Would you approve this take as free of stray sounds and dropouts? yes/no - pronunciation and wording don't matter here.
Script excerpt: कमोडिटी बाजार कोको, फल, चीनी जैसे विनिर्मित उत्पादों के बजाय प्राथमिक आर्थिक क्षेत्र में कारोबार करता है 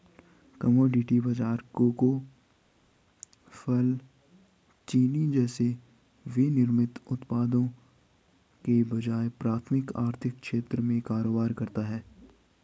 yes